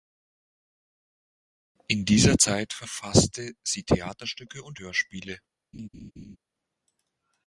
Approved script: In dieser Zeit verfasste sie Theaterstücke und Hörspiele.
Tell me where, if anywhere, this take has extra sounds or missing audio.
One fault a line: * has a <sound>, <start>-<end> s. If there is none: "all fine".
* has a laugh, 5.7-6.4 s